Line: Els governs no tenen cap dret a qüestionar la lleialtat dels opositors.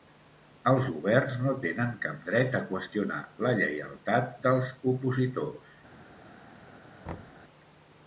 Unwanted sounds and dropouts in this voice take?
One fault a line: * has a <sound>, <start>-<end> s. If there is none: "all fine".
* has a thud, 7.0-7.4 s